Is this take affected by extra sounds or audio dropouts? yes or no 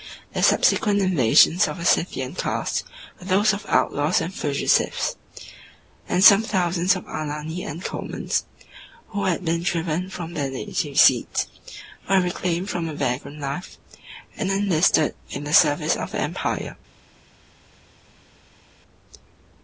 no